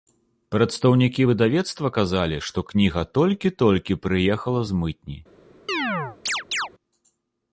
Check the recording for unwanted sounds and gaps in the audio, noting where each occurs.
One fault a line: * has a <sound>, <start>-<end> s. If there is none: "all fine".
* has a chirp, 5.7-6.7 s